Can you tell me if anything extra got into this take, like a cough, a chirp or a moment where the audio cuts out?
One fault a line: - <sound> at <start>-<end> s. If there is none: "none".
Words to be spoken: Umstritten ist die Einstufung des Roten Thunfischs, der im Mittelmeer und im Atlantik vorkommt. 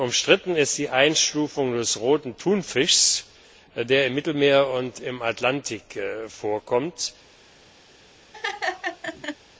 - laugh at 8.3-9.4 s